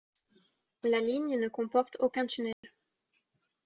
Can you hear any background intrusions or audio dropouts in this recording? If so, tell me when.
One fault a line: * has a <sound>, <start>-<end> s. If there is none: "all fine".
* has a dropout, 2.5-2.6 s